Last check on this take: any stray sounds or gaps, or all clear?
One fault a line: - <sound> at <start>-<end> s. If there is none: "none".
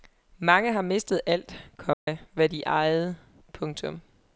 - dropout at 1.9-2.1 s